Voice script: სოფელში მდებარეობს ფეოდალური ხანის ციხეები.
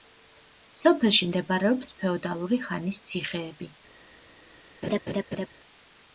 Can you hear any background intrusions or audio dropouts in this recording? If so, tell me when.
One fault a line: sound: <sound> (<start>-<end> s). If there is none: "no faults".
sound: laugh (4.8-5.5 s)